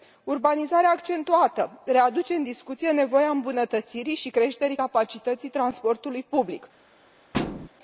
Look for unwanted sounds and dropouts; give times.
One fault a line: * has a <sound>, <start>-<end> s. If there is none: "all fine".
* has a thud, 7.3-7.7 s